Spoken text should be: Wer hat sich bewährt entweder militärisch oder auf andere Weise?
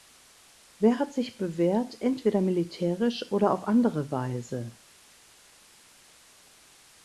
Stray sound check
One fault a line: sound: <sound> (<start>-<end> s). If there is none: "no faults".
no faults